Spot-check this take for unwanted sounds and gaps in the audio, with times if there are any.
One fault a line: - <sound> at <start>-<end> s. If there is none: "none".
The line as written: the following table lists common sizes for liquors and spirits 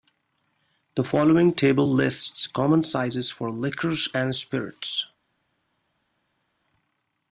none